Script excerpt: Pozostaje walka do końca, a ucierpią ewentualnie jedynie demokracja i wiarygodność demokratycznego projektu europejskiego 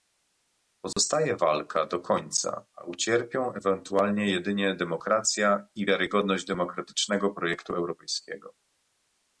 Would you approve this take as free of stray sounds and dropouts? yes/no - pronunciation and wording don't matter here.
no